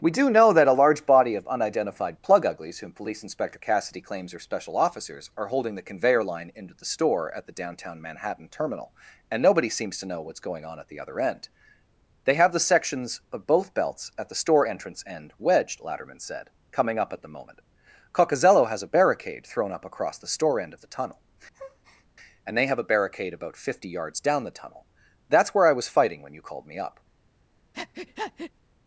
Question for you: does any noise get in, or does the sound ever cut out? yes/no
yes